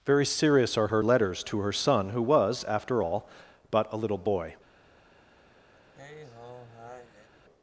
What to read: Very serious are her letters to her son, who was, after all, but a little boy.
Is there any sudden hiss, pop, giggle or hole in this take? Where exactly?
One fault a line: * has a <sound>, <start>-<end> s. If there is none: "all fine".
* has a sigh, 5.7-7.3 s